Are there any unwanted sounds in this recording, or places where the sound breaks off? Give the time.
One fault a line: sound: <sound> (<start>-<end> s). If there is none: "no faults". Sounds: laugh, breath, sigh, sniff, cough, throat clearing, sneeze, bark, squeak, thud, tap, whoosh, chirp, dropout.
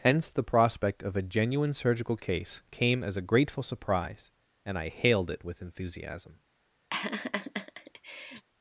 sound: laugh (6.9-8.4 s)